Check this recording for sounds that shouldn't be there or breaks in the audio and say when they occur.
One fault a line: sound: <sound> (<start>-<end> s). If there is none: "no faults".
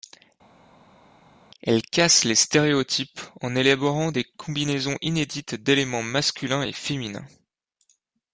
no faults